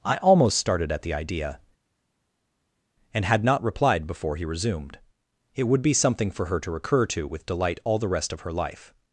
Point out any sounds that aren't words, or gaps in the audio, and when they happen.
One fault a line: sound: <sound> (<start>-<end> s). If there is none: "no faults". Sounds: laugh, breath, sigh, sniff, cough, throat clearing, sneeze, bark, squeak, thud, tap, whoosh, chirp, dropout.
no faults